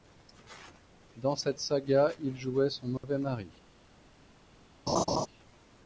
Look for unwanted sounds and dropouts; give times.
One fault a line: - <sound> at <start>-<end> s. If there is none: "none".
- dropout at 3.0-3.0 s
- laugh at 4.9-5.3 s